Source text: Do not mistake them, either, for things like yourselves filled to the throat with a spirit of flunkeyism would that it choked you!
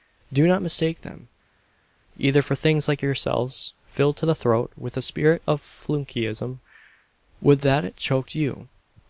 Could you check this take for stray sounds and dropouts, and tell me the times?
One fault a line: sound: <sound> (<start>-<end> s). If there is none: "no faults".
no faults